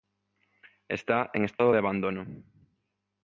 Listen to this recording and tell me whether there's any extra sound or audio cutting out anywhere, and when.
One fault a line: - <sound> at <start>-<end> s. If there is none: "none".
- dropout at 1.6-1.6 s